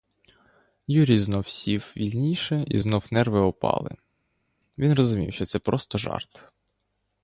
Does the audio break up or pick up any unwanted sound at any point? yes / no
no